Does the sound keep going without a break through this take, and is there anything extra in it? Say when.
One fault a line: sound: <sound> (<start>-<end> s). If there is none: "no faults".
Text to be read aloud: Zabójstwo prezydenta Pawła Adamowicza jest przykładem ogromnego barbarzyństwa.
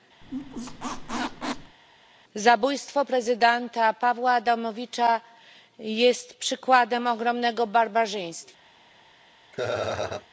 sound: squeak (0.2-1.8 s)
sound: laugh (9.5-10.3 s)